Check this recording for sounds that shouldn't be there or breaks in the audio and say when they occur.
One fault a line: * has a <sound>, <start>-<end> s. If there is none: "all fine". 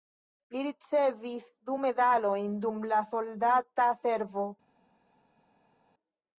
all fine